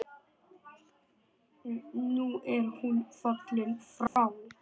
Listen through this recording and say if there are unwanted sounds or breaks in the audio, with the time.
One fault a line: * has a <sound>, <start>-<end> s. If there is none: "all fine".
* has a dropout, 4.1-4.2 s